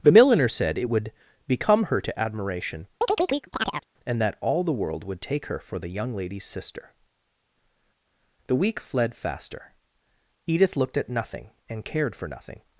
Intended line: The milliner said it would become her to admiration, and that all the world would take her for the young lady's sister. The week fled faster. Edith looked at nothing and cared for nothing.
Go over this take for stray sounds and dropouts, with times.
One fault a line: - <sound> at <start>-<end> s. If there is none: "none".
- chirp at 3.0-3.9 s